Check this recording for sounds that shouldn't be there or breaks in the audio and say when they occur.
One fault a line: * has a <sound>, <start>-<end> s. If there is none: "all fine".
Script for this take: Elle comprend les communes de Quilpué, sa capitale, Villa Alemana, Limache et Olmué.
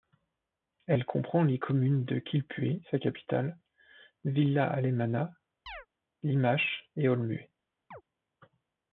* has a chirp, 5.7-5.9 s
* has a chirp, 7.9-8.0 s